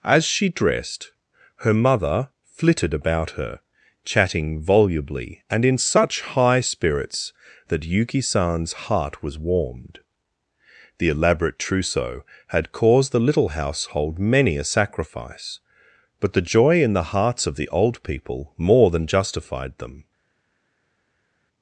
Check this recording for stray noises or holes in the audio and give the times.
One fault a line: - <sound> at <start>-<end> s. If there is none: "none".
none